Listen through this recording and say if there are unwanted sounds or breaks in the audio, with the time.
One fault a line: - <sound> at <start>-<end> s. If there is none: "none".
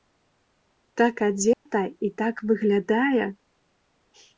- dropout at 1.5-1.7 s